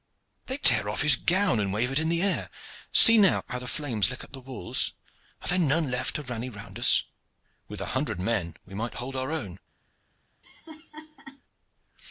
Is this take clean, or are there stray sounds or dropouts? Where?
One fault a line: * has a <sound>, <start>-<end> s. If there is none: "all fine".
* has a laugh, 10.4-11.4 s